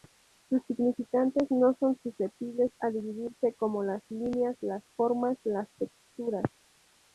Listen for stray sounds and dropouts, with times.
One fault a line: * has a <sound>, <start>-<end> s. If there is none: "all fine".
all fine